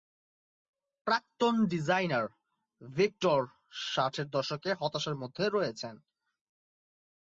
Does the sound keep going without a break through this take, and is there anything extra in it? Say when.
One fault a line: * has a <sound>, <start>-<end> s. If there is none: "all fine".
all fine